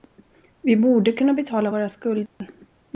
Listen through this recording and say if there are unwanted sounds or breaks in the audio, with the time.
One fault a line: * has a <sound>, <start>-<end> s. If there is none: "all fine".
* has a dropout, 2.3-2.4 s